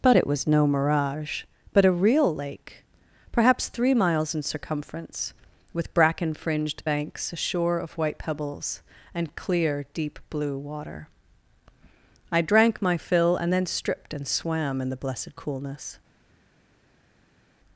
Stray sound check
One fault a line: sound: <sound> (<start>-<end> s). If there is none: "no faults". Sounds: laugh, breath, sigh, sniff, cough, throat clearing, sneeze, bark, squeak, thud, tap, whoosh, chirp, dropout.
no faults